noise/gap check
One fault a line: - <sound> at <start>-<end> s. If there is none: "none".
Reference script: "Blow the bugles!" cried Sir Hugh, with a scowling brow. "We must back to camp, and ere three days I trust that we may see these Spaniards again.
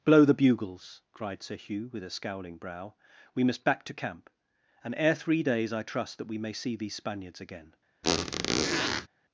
- squeak at 8.0-9.1 s